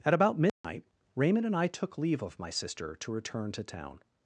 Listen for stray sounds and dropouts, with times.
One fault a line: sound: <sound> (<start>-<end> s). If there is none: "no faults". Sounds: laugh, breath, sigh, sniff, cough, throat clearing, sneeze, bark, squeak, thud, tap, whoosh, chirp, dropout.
sound: dropout (0.5-0.6 s)